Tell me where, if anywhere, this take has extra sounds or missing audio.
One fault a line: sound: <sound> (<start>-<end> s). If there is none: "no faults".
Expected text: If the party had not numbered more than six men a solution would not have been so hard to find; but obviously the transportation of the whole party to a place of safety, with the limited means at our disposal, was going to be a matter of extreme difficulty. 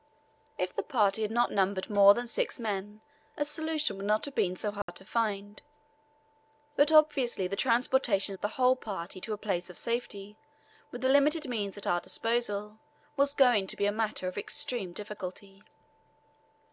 sound: dropout (4.8-4.9 s)